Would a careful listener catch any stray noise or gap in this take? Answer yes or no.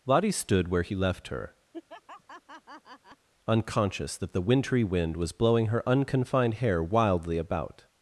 yes